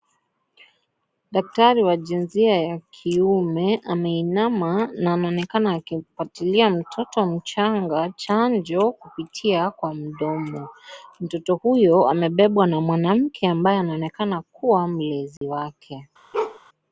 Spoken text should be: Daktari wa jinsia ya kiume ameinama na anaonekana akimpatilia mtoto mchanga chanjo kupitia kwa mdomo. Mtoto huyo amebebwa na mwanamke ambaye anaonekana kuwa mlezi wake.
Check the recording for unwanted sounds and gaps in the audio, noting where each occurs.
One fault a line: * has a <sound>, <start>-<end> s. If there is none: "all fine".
* has a dropout, 15.4-15.4 s
* has a bark, 16.3-16.6 s